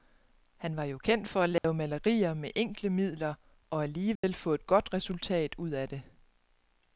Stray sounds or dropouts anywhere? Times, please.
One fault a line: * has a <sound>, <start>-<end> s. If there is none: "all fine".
* has a dropout, 1.6-1.6 s
* has a dropout, 4.2-4.2 s